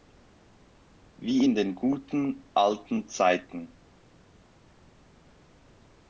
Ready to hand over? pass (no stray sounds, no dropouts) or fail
pass